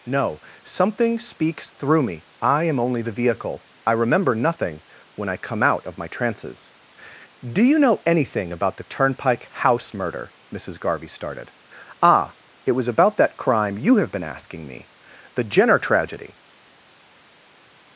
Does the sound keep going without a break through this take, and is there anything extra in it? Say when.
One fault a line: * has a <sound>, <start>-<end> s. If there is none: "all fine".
all fine